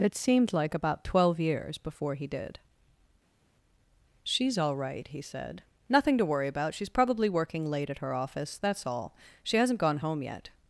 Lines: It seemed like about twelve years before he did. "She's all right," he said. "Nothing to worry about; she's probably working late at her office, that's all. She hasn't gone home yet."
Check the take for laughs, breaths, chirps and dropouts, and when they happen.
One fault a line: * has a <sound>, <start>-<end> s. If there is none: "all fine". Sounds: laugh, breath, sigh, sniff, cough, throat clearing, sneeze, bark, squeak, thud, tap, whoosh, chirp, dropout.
all fine